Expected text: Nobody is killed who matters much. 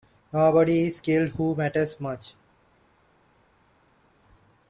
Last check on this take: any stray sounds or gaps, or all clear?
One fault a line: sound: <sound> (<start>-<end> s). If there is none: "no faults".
no faults